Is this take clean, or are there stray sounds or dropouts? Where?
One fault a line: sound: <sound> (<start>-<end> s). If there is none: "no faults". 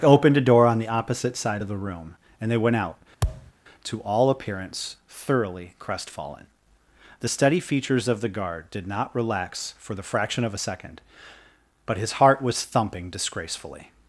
sound: thud (3.2-3.5 s)